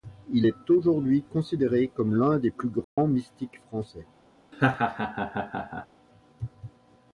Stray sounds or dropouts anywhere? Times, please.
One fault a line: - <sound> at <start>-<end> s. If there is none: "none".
- dropout at 2.8-3.0 s
- laugh at 4.5-5.9 s